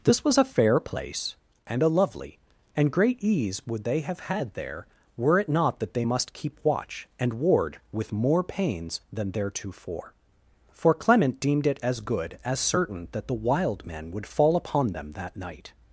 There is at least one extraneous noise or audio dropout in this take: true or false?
false